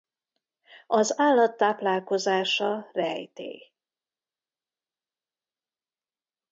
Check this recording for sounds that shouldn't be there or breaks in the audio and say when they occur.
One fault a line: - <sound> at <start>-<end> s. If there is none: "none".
none